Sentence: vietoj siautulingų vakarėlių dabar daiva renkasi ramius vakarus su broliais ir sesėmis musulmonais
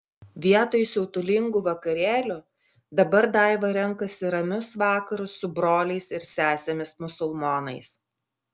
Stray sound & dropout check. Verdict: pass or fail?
pass